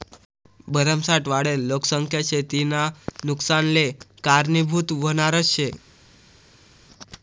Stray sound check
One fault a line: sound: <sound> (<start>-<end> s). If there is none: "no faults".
no faults